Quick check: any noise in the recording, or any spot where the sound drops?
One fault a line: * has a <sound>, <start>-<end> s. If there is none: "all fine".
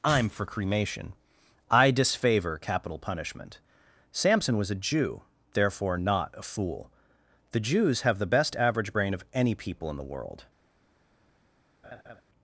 * has a laugh, 11.8-12.2 s